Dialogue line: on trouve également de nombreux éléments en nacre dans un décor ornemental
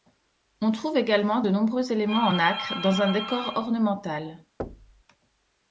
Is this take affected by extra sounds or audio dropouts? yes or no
yes